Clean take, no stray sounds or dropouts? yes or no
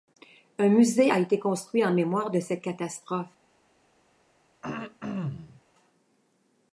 no